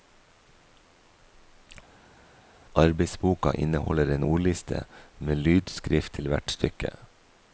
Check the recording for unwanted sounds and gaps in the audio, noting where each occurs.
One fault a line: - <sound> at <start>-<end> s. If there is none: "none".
none